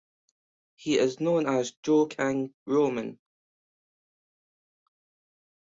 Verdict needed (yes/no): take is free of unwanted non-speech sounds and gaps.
yes